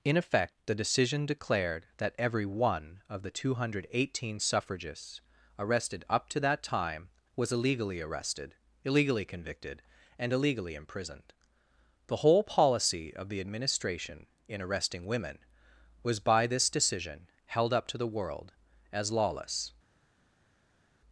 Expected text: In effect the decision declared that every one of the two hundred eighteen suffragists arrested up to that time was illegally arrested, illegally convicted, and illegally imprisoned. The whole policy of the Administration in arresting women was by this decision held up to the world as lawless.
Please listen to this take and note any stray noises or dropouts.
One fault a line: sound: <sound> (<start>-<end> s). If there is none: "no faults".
no faults